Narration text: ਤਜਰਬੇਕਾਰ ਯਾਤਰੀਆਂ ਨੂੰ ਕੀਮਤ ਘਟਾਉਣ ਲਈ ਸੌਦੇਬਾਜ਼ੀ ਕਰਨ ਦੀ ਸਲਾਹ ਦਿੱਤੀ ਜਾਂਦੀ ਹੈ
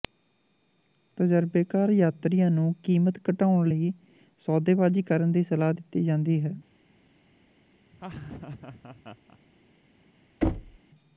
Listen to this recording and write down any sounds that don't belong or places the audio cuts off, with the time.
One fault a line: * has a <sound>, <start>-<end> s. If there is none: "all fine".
* has a laugh, 7.9-9.4 s
* has a thud, 10.4-10.8 s